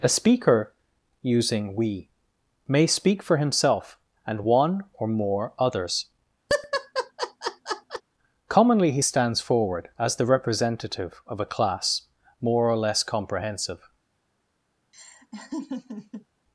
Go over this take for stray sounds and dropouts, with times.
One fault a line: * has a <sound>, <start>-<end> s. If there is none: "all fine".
* has a laugh, 6.5-8.0 s
* has a laugh, 14.9-16.3 s